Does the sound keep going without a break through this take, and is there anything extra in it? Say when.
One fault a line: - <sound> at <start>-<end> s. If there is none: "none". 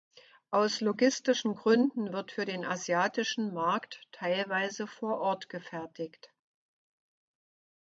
none